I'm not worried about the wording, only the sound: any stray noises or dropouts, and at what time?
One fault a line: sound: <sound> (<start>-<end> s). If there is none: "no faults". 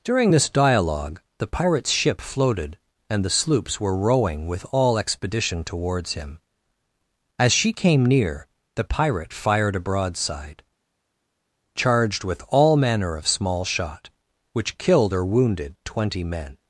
no faults